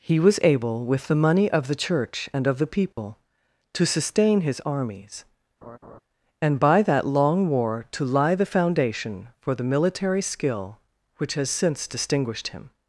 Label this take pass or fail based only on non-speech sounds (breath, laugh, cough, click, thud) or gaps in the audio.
fail